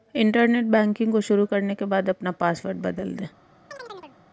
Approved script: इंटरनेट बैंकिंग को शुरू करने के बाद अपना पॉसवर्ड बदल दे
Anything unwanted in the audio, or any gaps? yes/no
yes